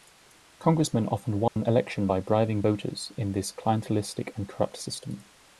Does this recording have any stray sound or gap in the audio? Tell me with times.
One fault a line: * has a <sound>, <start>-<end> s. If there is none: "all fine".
* has a dropout, 1.5-1.6 s